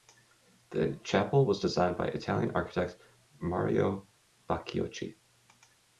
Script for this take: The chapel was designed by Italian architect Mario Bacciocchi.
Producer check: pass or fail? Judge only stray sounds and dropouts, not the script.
pass